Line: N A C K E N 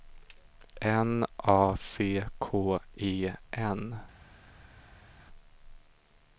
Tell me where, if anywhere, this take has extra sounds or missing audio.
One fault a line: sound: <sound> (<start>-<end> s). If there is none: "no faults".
no faults